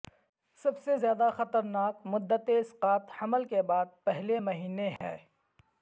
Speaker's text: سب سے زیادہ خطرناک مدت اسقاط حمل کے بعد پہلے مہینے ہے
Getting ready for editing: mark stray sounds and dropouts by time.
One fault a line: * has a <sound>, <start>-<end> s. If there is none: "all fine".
* has a dropout, 5.0-5.0 s